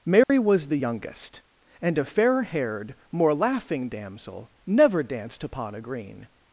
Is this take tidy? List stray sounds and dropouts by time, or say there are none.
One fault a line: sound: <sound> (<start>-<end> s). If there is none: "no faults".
sound: dropout (0.2-0.3 s)